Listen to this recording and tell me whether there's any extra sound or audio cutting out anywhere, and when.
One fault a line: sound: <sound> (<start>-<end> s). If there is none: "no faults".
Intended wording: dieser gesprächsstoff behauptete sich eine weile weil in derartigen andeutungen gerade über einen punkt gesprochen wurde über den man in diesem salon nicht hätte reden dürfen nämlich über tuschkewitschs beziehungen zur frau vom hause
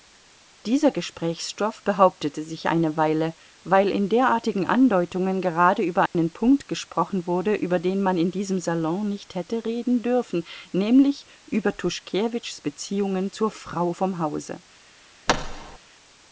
sound: dropout (6.1-6.1 s)
sound: thud (15.3-15.8 s)